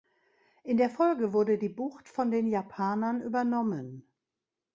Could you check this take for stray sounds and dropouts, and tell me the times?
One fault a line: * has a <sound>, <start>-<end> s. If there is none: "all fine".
all fine